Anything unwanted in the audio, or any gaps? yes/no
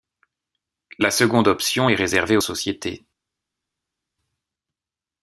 no